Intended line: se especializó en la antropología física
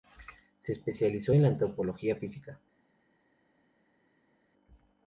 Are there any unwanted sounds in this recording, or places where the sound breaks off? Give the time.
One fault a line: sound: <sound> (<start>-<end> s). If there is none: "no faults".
no faults